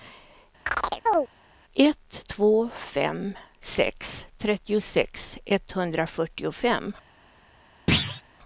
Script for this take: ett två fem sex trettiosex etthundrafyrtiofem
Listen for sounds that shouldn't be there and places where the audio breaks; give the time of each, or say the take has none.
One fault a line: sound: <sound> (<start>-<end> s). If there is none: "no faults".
sound: chirp (0.7-1.3 s)
sound: thud (7.9-8.2 s)